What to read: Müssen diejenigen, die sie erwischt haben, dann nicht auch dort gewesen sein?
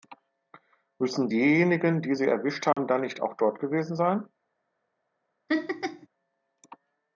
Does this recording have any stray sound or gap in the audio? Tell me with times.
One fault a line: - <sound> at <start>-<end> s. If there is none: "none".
- dropout at 2.7-2.8 s
- laugh at 5.5-6.1 s